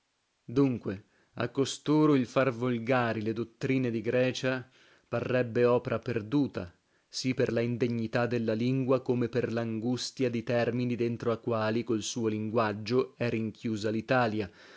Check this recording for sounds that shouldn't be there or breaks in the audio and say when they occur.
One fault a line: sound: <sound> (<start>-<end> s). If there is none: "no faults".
no faults